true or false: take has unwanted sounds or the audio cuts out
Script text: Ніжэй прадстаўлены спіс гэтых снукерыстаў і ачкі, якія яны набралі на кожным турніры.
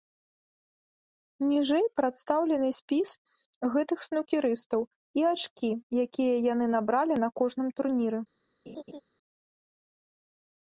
true